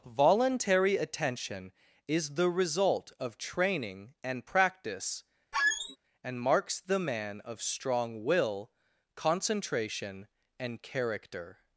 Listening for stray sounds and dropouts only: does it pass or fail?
fail